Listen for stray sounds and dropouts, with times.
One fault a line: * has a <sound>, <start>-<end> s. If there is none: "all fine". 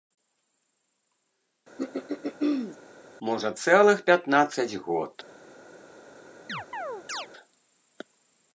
* has a throat clearing, 1.8-2.8 s
* has a chirp, 6.5-7.3 s